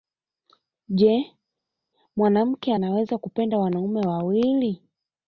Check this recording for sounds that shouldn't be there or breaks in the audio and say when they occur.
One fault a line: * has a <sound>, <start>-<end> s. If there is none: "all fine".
all fine